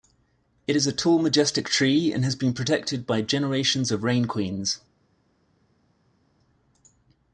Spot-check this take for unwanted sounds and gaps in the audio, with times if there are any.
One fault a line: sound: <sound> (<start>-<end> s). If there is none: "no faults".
no faults